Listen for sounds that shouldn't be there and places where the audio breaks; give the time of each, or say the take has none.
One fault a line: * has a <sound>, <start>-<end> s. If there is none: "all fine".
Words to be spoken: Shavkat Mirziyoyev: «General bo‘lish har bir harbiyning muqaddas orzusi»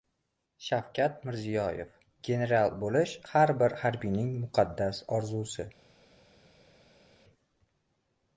all fine